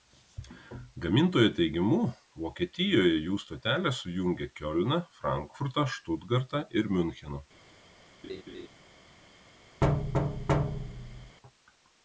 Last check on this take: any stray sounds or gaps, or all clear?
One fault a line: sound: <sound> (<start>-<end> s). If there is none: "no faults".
sound: laugh (8.2-8.7 s)
sound: thud (9.8-11.4 s)